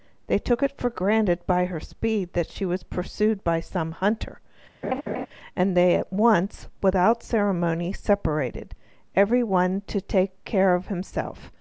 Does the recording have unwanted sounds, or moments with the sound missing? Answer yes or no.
yes